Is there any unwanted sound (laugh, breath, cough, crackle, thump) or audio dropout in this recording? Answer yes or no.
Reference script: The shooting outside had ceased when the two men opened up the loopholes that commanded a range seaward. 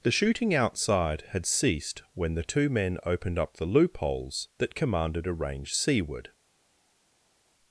no